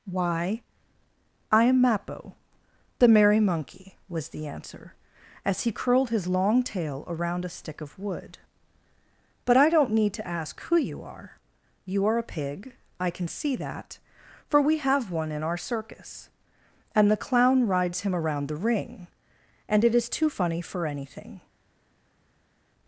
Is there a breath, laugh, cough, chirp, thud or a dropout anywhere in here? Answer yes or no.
no